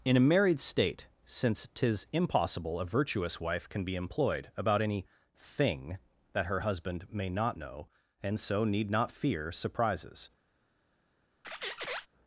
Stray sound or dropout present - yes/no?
yes